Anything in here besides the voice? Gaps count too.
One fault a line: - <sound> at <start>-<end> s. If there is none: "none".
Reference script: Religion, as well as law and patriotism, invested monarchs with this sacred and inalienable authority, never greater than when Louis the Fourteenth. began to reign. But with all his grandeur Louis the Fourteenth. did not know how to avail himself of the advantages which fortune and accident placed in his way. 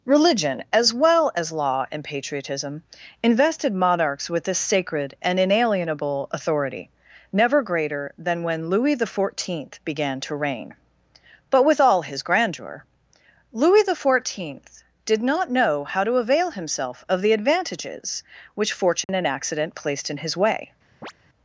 - dropout at 19.0-19.1 s
- chirp at 21.0-21.1 s